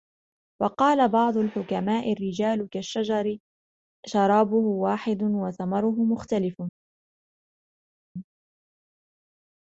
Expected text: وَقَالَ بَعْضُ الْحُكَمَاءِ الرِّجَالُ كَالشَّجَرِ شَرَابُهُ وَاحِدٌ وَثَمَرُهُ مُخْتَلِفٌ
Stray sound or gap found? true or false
false